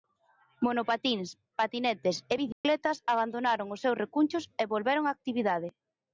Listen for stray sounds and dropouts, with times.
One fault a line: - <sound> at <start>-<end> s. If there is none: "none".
- dropout at 2.5-2.6 s